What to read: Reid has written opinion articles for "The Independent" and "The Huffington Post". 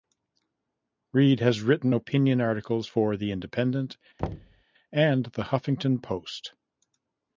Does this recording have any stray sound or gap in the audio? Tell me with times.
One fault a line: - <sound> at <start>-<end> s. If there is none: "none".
- thud at 4.2-4.6 s